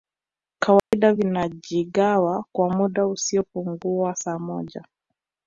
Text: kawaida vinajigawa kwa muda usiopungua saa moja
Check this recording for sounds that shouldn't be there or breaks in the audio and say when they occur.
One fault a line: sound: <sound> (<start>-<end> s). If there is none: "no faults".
sound: dropout (0.8-0.9 s)